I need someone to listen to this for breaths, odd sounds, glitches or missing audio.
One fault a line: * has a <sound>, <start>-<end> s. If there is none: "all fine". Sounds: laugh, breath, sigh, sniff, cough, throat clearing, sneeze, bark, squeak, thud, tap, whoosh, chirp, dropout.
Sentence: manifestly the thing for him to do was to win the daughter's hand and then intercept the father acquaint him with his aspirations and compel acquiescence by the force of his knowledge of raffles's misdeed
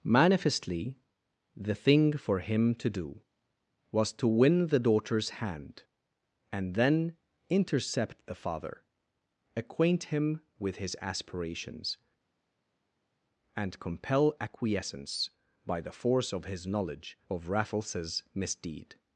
all fine